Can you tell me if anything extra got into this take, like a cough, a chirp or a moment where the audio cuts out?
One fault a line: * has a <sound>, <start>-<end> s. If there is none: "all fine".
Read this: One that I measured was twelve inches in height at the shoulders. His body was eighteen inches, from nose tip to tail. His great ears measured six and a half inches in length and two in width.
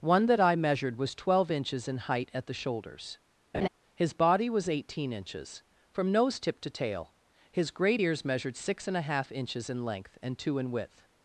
* has a laugh, 3.5-3.7 s